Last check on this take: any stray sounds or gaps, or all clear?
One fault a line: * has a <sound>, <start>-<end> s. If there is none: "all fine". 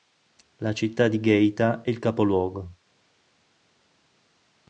all fine